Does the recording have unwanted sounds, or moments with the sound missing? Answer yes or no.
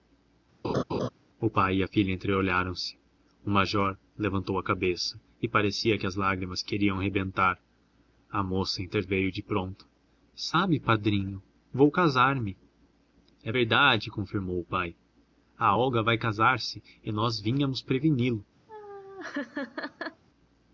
yes